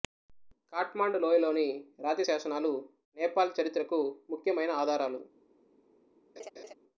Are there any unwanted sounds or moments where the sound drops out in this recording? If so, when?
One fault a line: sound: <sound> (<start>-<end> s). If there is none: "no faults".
sound: laugh (6.4-6.7 s)